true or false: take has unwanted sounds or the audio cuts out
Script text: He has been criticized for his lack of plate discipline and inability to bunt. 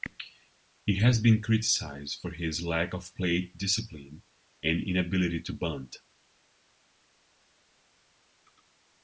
false